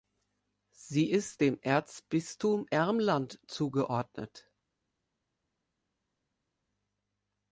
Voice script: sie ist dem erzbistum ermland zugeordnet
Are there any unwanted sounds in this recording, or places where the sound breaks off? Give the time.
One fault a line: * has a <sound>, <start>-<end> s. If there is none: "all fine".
all fine